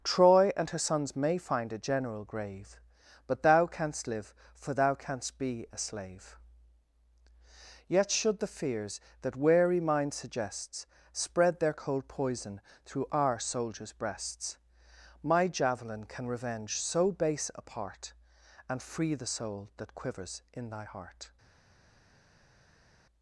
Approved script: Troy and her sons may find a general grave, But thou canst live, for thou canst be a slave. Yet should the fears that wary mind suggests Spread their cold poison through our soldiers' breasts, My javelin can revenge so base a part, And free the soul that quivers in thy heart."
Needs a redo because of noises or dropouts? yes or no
no